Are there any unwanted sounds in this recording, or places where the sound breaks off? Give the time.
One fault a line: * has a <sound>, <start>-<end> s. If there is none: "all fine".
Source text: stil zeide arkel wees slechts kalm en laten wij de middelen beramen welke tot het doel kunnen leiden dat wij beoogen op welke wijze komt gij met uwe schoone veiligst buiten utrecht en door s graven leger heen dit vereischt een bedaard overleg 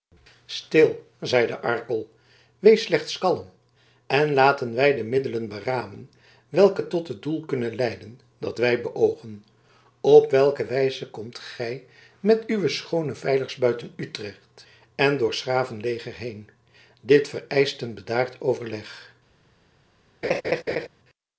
* has a laugh, 20.2-20.9 s